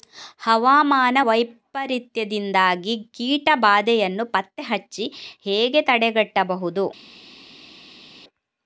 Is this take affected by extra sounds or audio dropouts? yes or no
no